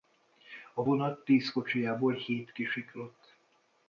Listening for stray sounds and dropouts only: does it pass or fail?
pass